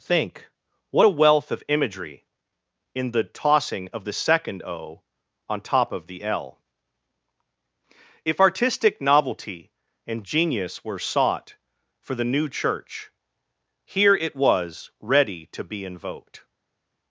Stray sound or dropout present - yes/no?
no